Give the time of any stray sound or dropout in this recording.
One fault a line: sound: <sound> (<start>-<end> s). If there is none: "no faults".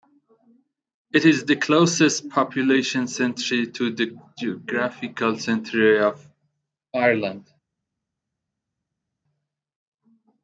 no faults